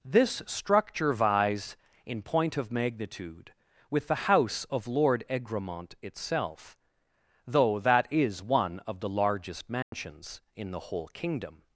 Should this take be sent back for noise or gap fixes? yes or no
yes